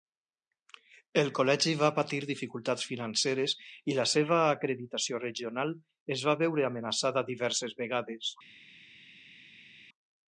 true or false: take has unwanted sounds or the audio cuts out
false